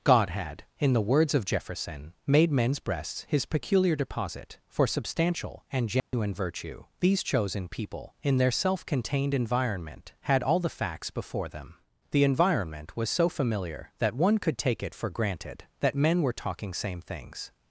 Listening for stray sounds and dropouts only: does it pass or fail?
fail